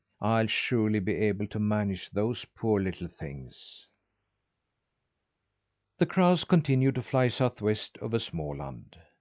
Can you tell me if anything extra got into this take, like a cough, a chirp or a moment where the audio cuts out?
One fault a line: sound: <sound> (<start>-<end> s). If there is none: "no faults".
no faults